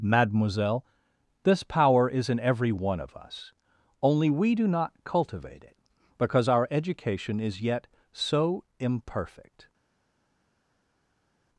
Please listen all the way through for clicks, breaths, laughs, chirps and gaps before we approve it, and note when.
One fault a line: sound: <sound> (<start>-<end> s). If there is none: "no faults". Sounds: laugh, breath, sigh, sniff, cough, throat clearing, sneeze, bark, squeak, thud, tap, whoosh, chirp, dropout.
no faults